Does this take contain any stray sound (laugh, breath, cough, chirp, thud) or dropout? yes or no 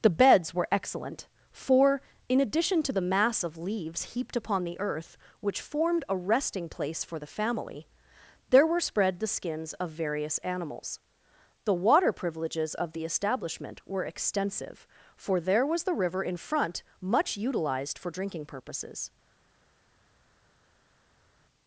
no